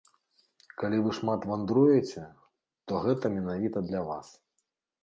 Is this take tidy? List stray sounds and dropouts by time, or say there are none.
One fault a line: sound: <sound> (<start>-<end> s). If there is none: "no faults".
no faults